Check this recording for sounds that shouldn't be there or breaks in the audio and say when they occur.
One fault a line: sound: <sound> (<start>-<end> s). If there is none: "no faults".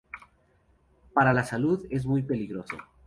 no faults